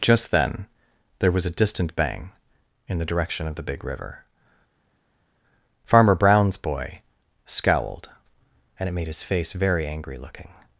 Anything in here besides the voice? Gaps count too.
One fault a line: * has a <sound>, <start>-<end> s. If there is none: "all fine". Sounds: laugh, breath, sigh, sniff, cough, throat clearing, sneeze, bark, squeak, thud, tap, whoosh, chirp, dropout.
all fine